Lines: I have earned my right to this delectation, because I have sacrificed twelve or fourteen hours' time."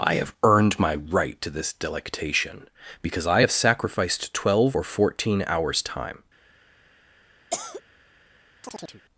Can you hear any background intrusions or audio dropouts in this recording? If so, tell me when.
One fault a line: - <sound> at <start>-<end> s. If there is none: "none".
- cough at 7.5-7.8 s
- chirp at 8.6-9.0 s